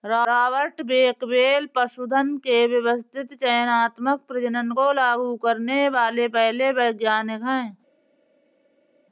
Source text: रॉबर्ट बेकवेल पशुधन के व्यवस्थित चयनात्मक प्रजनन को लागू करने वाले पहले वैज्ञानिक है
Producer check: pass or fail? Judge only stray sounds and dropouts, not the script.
pass